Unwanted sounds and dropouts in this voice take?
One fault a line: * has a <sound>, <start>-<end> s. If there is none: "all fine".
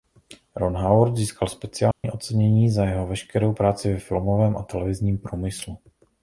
* has a dropout, 1.9-2.0 s